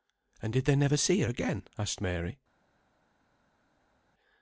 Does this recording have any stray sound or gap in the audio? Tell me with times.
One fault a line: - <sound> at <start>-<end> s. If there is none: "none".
none